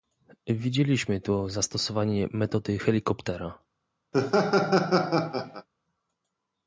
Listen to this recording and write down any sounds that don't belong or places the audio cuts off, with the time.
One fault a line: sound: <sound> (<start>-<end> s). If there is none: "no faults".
sound: laugh (4.1-5.7 s)